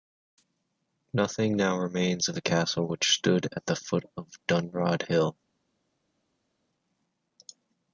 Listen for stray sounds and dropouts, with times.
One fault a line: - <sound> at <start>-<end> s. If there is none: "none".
none